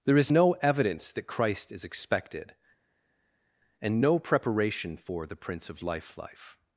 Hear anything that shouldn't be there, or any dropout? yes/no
no